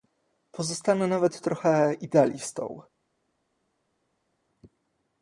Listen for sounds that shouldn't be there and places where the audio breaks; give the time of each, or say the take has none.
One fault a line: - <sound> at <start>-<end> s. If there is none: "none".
none